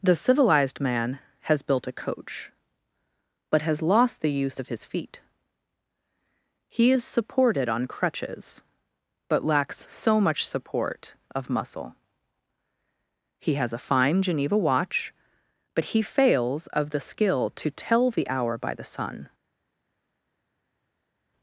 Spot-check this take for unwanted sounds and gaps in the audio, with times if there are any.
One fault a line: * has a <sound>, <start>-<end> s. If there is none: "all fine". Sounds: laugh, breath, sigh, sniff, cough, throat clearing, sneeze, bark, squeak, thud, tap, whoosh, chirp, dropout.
all fine